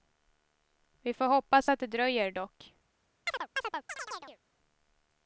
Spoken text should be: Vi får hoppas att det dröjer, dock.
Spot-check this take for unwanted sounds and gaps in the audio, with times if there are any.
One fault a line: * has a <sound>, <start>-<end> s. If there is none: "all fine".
* has a chirp, 3.3-4.4 s